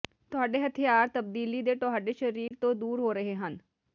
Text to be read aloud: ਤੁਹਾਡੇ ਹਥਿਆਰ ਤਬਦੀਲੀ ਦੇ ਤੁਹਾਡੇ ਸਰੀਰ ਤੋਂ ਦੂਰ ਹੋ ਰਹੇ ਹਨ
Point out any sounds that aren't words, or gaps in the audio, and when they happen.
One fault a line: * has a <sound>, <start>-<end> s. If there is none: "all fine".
* has a dropout, 2.5-2.5 s